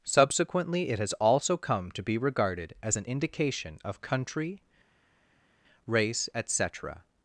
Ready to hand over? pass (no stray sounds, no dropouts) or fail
pass